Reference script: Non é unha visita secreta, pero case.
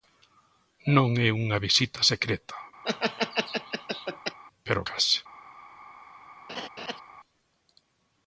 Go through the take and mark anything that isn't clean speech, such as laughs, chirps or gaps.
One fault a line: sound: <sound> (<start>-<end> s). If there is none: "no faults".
sound: laugh (2.8-4.4 s)
sound: laugh (6.5-7.0 s)